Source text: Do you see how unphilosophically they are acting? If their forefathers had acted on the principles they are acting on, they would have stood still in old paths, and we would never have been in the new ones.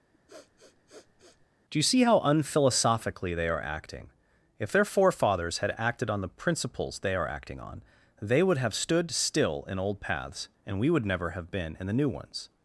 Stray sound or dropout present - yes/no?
yes